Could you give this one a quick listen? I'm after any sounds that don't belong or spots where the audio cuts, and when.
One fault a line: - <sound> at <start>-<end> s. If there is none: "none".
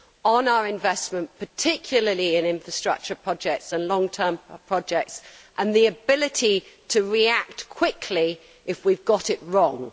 none